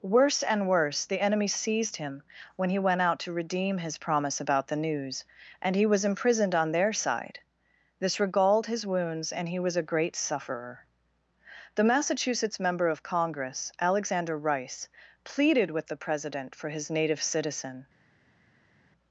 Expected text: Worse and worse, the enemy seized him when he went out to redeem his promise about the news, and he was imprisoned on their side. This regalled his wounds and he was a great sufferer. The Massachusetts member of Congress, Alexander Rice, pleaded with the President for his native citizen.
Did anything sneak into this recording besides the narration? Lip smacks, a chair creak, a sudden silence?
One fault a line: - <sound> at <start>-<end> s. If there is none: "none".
none